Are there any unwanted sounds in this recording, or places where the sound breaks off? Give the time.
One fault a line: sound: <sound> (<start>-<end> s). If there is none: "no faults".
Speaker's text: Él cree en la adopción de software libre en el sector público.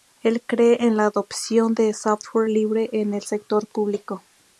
no faults